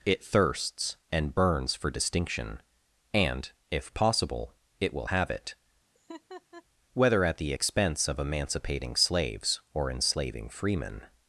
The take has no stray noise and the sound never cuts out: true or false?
false